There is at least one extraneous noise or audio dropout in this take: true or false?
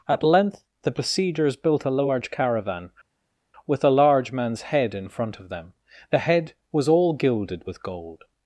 false